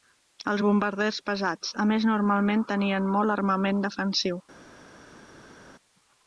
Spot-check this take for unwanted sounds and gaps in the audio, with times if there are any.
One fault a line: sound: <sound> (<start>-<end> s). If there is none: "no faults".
no faults